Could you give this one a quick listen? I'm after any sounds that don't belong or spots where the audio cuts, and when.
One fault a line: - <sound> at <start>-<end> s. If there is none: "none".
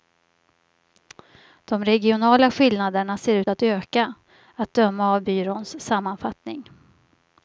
none